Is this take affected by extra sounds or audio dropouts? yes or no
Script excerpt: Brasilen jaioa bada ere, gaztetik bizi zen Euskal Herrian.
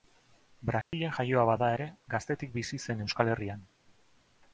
yes